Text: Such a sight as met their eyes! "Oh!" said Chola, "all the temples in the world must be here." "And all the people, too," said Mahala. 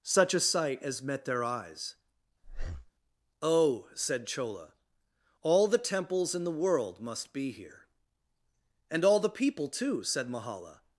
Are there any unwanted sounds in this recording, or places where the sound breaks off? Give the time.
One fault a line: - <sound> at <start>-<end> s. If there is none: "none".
- breath at 2.4-2.9 s